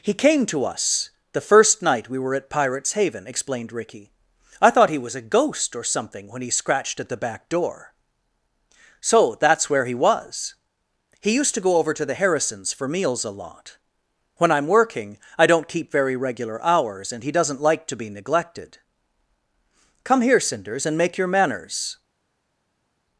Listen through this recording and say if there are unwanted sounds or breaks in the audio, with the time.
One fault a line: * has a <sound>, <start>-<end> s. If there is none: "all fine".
all fine